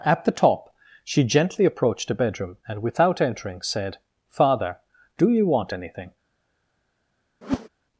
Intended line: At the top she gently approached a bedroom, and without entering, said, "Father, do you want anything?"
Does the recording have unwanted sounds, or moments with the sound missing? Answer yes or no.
yes